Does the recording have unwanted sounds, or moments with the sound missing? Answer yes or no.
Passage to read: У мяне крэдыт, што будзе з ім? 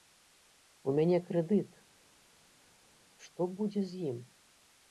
no